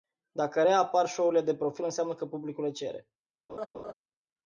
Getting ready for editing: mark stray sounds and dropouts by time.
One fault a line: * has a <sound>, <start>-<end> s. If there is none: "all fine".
* has a laugh, 3.5-3.9 s